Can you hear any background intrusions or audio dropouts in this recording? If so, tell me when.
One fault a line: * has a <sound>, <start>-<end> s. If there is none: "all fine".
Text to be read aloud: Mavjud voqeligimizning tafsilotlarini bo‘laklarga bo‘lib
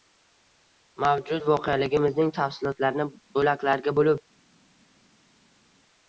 all fine